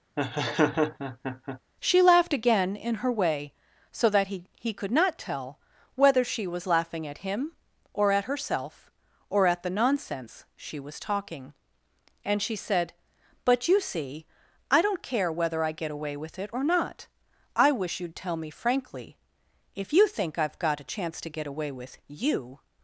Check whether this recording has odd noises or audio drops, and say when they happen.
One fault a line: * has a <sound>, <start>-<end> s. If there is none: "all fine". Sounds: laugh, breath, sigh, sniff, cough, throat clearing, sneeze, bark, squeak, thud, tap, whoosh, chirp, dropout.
* has a laugh, 0.2-1.6 s